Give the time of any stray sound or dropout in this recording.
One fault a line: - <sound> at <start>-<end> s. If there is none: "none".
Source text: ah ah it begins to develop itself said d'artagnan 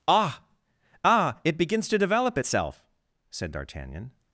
none